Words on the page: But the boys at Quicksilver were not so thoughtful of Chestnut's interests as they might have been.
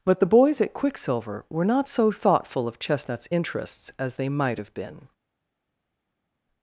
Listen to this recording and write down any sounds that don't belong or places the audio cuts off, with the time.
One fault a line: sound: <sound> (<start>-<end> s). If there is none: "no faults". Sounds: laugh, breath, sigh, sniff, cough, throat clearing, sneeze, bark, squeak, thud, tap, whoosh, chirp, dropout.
no faults